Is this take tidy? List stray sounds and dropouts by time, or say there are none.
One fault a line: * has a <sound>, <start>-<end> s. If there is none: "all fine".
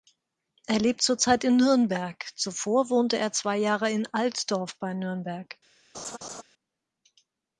* has a laugh, 5.9-6.4 s